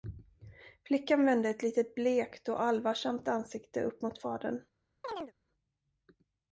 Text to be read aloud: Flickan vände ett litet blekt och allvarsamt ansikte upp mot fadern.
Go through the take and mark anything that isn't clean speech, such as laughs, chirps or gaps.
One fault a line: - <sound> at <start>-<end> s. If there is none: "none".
- chirp at 5.0-5.3 s